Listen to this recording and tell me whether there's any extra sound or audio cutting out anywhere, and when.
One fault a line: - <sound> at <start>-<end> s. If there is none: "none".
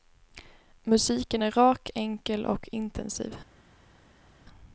none